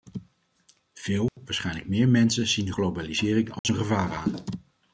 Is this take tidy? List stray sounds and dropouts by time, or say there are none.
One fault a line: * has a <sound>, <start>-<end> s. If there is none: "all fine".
* has a dropout, 1.3-1.4 s
* has a dropout, 3.6-3.6 s